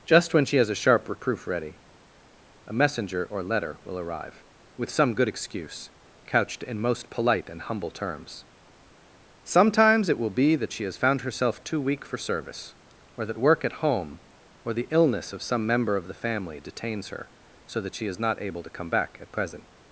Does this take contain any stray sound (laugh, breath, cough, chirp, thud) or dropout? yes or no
no